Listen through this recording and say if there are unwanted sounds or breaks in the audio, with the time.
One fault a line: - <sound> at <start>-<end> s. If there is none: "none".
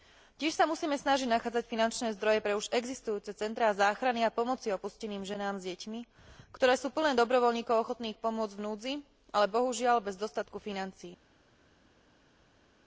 none